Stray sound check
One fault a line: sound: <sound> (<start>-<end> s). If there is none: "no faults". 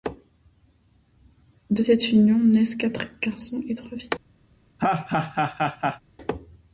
sound: laugh (4.8-6.0 s)